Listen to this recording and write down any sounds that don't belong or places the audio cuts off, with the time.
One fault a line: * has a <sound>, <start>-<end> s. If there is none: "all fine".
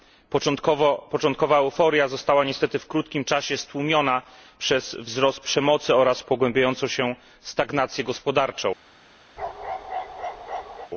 * has a bark, 9.4-10.9 s